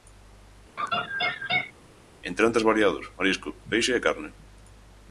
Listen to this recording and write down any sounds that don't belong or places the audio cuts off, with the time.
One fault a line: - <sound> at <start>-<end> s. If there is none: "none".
- laugh at 0.8-1.7 s